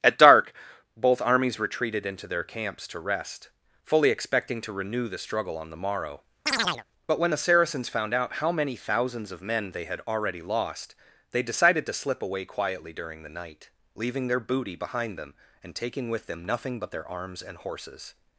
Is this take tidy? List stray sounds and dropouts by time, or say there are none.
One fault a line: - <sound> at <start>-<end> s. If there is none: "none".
- chirp at 6.5-6.8 s